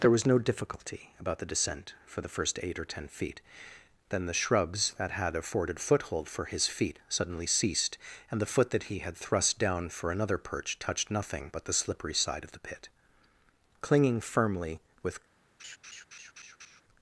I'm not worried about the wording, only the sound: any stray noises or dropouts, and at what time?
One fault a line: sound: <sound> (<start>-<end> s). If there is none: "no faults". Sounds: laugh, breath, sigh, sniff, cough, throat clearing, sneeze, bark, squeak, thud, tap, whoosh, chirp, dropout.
sound: laugh (15.6-16.8 s)